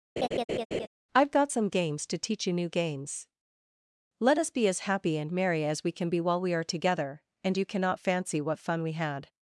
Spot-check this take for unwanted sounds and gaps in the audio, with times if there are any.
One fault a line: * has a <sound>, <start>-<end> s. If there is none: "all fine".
* has a laugh, 0.2-0.9 s